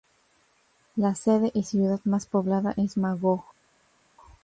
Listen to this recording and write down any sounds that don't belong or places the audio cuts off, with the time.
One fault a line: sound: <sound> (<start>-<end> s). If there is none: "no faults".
no faults